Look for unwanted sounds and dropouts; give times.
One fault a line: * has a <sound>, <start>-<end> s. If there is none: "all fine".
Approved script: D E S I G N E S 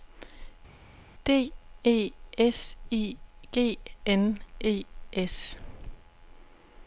all fine